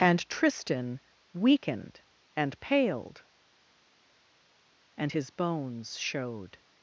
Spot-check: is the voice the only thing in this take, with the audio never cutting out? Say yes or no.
yes